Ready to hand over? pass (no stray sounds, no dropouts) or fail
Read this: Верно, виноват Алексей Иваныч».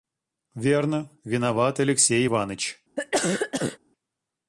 fail